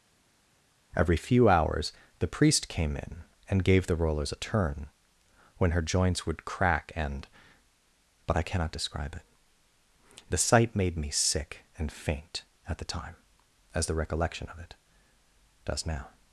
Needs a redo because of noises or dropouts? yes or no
no